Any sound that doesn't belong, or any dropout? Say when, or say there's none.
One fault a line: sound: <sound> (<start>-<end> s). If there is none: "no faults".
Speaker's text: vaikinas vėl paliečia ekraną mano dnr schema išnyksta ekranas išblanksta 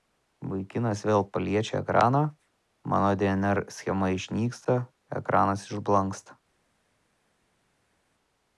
no faults